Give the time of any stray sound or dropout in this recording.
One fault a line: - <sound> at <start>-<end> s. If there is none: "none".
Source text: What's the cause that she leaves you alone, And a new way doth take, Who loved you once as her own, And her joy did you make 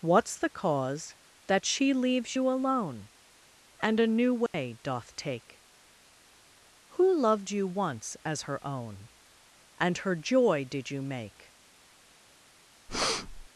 - dropout at 4.5-4.5 s
- breath at 12.9-13.5 s